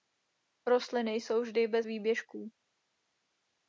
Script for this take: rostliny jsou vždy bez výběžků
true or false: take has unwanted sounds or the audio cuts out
false